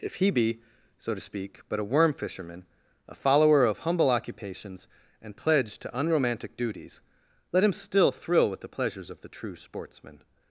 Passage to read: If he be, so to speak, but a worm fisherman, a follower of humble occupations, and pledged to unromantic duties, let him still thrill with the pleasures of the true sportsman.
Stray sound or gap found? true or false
false